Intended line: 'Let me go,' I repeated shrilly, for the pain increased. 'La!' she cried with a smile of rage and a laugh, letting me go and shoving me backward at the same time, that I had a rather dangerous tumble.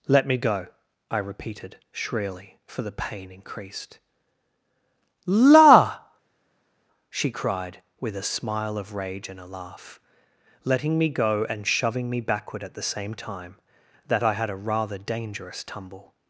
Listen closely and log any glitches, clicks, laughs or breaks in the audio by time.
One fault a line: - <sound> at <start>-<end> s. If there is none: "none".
none